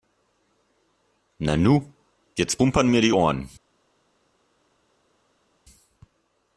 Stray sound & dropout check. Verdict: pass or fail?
pass